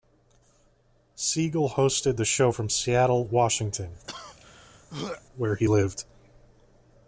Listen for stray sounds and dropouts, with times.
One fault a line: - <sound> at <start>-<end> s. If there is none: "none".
- throat clearing at 4.1-5.2 s